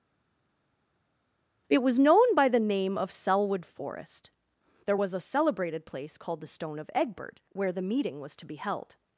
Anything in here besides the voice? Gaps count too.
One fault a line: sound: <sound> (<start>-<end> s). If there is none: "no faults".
no faults